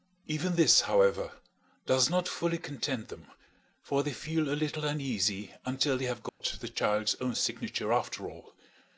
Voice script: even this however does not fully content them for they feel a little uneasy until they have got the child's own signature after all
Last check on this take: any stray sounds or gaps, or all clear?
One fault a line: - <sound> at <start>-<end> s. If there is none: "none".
- dropout at 6.3-6.4 s